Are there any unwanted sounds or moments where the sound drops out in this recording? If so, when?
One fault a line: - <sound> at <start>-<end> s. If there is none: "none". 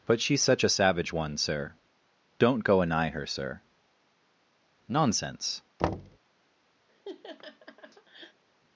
- thud at 5.8-6.2 s
- laugh at 6.9-8.4 s